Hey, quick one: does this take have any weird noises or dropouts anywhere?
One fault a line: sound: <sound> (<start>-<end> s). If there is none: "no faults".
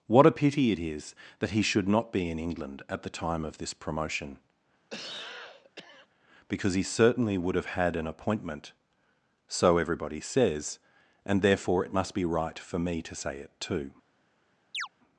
sound: cough (4.9-6.1 s)
sound: chirp (14.7-14.9 s)